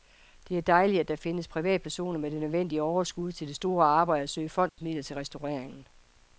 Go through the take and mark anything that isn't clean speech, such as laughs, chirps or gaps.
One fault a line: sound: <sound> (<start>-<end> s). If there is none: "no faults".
sound: dropout (4.7-4.8 s)